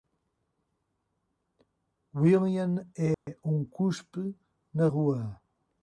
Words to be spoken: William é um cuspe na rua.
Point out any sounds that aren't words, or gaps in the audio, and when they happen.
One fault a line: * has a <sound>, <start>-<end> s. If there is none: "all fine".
* has a dropout, 3.1-3.3 s